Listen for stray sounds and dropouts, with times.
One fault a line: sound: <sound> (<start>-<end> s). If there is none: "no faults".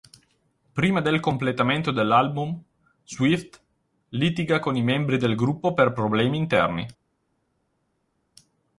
no faults